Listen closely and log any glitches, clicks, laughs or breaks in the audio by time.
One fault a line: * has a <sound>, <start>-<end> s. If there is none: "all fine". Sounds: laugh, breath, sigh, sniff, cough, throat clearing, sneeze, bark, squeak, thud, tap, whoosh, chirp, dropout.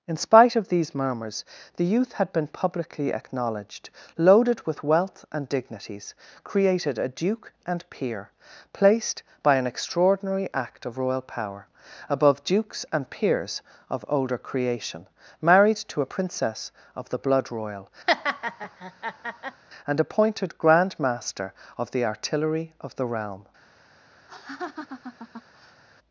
* has a laugh, 18.1-19.6 s
* has a laugh, 24.3-25.8 s